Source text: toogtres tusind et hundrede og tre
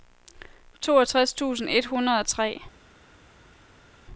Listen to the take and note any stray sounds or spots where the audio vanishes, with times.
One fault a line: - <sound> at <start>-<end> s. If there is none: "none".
none